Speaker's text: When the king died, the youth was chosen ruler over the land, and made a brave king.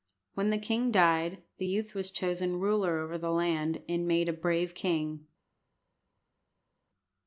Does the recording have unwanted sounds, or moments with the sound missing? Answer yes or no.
no